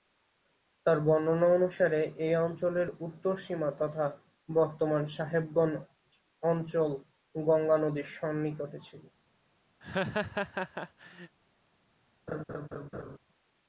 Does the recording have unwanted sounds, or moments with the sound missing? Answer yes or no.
yes